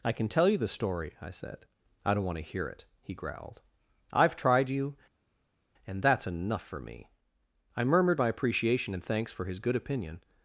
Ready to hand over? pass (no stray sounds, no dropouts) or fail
pass